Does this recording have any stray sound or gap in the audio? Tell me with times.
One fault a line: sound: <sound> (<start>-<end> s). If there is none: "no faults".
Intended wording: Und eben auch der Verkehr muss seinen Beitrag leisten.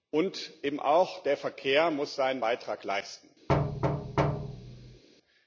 sound: thud (3.5-5.0 s)